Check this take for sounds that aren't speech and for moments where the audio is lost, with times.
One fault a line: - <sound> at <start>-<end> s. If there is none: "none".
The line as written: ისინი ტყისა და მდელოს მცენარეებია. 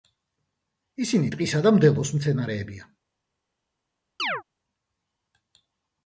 - chirp at 4.2-4.4 s